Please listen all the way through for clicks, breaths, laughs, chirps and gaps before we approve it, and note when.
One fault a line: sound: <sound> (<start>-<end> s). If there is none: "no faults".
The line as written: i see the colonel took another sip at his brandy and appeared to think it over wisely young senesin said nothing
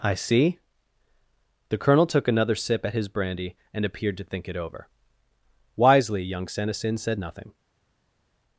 no faults